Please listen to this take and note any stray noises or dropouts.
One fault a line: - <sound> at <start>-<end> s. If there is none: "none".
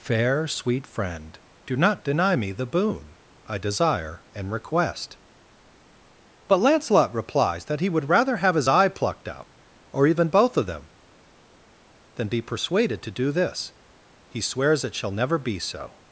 none